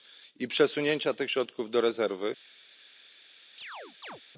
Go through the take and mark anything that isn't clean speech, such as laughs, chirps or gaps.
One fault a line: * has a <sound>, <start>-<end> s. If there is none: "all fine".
* has a chirp, 3.6-4.2 s